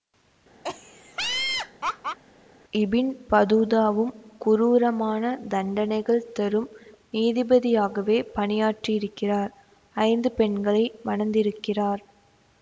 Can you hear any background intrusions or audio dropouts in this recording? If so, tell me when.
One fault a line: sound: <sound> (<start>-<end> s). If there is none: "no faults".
sound: laugh (0.6-2.2 s)